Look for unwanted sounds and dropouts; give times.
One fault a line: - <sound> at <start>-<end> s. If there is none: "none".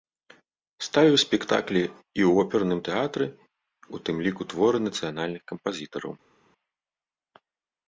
none